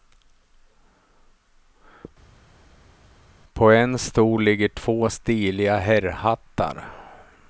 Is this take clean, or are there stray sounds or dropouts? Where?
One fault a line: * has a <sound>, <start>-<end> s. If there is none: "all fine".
all fine